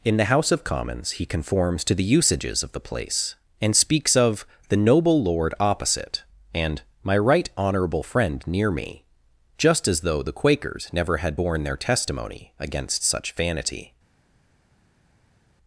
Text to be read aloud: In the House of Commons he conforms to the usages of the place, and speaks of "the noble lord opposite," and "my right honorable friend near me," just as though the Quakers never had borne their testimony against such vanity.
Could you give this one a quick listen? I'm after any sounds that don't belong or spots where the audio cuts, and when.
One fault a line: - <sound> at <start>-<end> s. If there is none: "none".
none